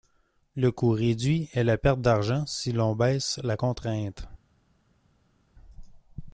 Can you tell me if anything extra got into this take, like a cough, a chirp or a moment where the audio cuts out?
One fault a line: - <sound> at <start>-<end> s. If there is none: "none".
none